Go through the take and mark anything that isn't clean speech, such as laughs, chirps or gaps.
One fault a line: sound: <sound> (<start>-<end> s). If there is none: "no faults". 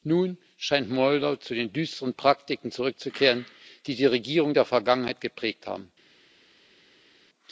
no faults